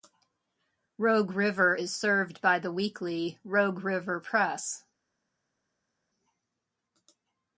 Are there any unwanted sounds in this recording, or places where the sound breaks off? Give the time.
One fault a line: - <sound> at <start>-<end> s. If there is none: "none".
none